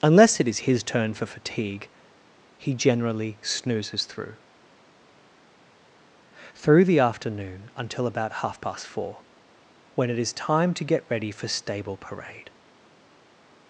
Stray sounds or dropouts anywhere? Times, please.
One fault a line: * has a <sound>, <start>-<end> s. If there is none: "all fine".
all fine